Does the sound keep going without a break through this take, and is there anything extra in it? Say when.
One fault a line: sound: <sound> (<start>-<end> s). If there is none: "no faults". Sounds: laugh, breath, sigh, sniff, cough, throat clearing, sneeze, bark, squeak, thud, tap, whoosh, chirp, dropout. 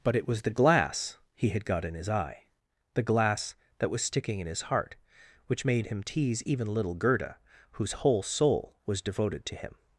no faults